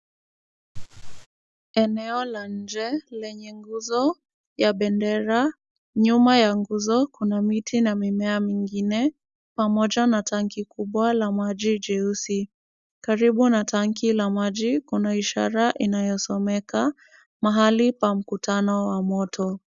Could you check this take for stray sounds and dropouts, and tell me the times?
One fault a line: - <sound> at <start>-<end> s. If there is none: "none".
- laugh at 0.7-1.3 s